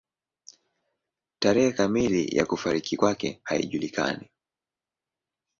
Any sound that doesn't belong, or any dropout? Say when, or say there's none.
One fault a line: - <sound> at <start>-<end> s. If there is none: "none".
none